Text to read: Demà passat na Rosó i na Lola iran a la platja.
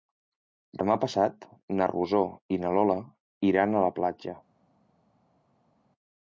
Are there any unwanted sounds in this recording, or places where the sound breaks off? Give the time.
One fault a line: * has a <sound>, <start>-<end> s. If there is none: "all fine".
all fine